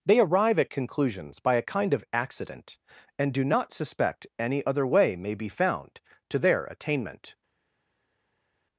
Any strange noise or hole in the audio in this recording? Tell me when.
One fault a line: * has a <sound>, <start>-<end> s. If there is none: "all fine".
all fine